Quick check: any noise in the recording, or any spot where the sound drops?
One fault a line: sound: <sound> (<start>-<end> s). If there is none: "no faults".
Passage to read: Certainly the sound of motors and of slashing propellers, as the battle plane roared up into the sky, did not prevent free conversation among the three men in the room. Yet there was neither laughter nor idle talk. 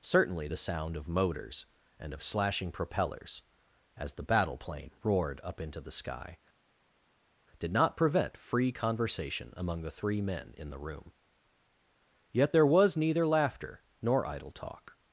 no faults